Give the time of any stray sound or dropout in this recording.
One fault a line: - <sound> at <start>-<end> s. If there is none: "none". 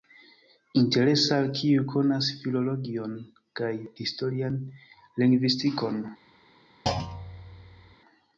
- thud at 6.9-8.0 s